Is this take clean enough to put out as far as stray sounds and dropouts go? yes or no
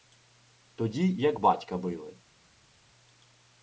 yes